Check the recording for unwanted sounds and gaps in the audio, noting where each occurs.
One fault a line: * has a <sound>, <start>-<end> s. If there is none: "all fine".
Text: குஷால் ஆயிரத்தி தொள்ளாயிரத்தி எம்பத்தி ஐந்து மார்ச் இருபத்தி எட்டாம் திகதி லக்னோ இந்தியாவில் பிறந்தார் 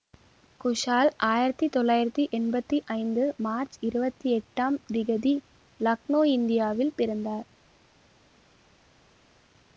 all fine